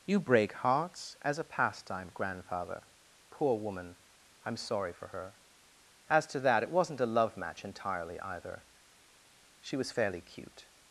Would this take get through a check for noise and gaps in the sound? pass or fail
pass